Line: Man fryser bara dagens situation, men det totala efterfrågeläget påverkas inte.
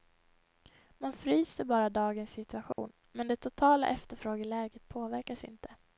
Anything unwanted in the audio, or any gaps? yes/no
yes